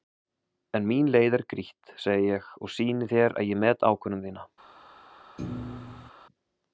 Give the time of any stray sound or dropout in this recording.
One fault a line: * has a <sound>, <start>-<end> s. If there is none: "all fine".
* has a thud, 5.4-6.1 s